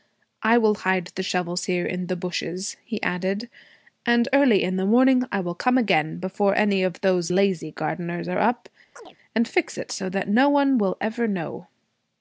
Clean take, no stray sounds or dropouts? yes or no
no